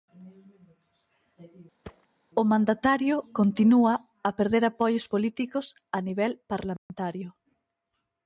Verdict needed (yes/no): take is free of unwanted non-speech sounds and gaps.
no